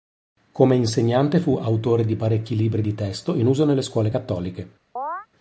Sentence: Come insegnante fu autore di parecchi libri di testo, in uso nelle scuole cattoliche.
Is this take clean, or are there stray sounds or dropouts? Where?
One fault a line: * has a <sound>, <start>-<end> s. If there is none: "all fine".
* has a chirp, 5.0-5.3 s